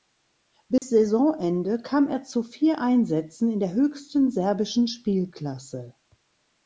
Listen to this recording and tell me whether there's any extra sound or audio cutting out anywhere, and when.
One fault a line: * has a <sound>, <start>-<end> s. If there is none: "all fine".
* has a dropout, 0.8-0.8 s